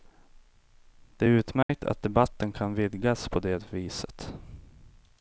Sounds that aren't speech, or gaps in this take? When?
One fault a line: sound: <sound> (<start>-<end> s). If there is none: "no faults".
sound: dropout (1.6-1.7 s)